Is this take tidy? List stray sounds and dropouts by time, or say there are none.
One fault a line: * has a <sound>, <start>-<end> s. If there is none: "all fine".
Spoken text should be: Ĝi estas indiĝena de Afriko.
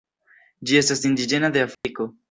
* has a dropout, 1.7-1.8 s